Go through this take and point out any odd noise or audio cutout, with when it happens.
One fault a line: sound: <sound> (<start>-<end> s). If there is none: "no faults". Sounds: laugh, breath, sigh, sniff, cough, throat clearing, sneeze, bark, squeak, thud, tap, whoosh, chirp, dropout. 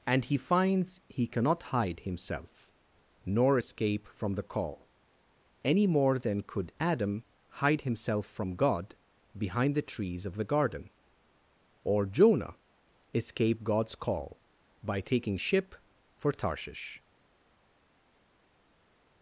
no faults